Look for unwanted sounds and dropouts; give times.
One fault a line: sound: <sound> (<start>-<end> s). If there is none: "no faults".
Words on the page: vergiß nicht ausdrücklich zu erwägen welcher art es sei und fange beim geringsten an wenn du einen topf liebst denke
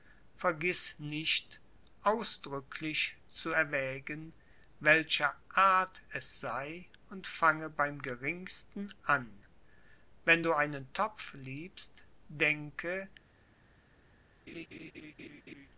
sound: laugh (14.5-15.7 s)